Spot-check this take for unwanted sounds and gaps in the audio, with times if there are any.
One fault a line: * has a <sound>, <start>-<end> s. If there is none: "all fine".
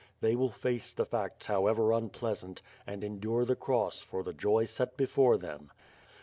all fine